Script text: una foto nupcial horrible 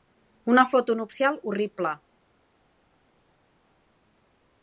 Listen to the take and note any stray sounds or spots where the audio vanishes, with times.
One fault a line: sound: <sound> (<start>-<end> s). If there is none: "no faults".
no faults